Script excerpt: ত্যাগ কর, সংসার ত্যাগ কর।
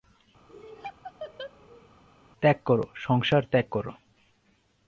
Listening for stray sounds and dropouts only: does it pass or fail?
fail